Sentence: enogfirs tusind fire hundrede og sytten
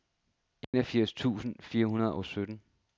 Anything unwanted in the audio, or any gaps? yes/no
yes